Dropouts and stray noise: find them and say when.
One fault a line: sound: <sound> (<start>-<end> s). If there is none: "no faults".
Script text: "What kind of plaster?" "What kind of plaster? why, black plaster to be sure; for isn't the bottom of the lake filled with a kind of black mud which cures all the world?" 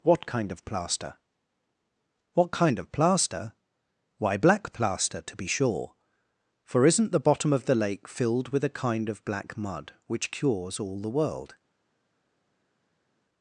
no faults